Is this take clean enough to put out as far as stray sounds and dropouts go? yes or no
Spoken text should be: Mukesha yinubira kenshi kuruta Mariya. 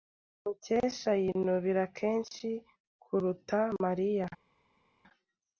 yes